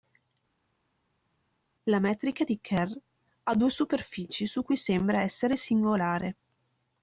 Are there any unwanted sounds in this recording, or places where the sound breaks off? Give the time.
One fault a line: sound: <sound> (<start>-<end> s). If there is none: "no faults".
no faults